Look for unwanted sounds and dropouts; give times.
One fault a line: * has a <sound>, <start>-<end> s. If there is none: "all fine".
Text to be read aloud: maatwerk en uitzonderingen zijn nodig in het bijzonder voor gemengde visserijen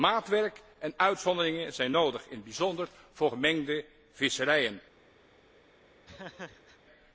* has a laugh, 6.1-6.8 s